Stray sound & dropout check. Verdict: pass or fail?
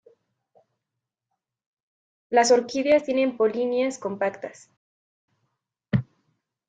pass